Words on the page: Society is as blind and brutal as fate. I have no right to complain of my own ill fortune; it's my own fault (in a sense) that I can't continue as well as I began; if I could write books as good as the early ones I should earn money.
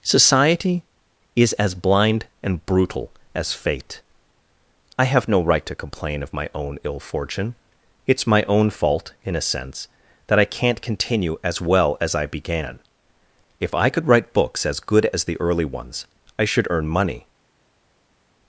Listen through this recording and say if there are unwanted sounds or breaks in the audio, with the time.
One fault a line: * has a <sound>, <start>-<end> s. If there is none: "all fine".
all fine